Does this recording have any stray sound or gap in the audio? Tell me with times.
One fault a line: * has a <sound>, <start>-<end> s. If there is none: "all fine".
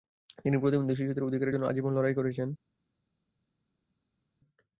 all fine